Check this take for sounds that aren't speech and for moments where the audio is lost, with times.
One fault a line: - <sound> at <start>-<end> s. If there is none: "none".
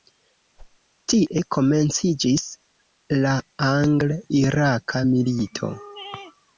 - whoosh at 0.6-0.8 s